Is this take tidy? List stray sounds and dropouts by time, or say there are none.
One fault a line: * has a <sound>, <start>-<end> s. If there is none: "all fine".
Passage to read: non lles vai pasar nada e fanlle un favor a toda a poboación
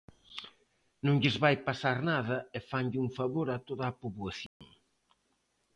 * has a dropout, 4.5-4.6 s